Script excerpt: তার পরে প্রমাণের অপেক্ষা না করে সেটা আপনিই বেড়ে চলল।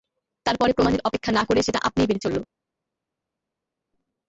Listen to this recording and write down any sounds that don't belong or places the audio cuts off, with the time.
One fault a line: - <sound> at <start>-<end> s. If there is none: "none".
none